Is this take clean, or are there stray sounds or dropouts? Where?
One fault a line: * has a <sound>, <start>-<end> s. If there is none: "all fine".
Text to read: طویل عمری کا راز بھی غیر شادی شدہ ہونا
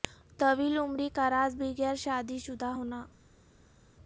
all fine